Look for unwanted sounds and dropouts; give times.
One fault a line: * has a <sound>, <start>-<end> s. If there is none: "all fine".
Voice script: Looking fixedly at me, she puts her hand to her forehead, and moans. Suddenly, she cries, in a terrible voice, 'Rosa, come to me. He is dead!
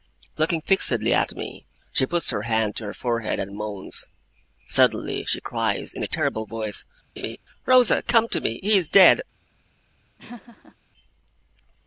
* has a laugh, 7.2-7.4 s
* has a laugh, 10.2-10.8 s